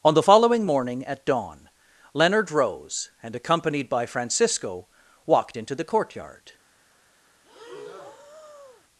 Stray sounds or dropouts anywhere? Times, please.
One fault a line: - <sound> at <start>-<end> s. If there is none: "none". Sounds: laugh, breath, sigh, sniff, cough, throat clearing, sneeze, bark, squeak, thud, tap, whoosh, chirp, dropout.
- breath at 7.4-8.8 s